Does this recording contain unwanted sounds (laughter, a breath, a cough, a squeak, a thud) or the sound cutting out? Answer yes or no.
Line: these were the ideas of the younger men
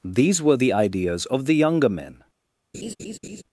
yes